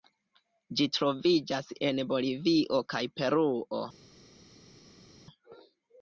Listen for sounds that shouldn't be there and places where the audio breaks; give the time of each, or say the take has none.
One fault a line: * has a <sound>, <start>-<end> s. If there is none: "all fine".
all fine